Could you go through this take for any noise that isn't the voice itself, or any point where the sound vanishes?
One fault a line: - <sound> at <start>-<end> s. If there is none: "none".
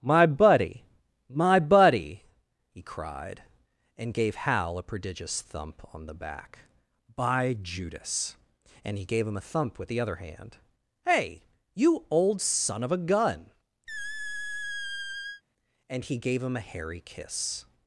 - squeak at 13.9-15.4 s